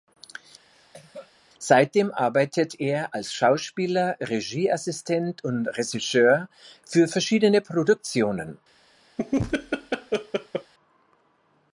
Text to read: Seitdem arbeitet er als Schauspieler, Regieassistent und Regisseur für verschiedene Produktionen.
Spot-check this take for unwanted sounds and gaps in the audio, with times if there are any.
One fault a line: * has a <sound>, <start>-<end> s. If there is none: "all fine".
* has a cough, 0.7-1.3 s
* has a laugh, 9.2-10.7 s